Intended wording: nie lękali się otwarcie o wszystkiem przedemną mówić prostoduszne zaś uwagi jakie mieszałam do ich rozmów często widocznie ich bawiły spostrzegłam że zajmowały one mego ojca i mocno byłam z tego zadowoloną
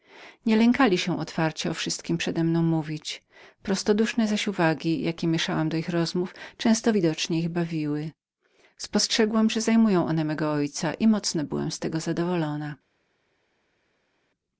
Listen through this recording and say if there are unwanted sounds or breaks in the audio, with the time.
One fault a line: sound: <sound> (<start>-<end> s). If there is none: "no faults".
no faults